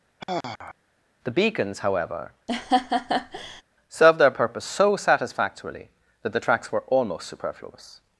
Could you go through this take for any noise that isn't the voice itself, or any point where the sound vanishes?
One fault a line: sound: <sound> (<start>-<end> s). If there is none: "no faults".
sound: sigh (0.2-0.8 s)
sound: laugh (2.5-3.6 s)